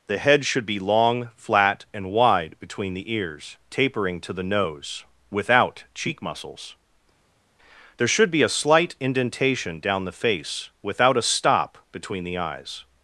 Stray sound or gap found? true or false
false